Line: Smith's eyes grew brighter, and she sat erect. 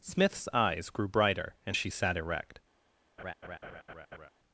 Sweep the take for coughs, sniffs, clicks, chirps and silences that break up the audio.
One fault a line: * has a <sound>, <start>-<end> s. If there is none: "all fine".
* has a laugh, 3.2-4.3 s